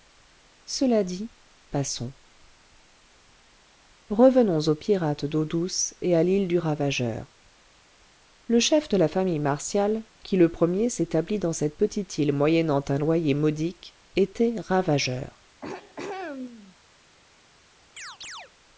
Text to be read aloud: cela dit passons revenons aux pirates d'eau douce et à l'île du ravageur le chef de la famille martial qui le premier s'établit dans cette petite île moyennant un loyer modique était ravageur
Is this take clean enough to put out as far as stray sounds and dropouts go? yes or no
no